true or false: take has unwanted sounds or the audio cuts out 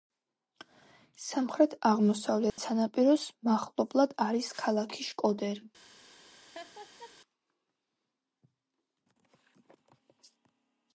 true